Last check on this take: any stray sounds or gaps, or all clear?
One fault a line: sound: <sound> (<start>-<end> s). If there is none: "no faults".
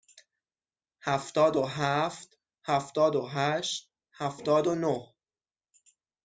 no faults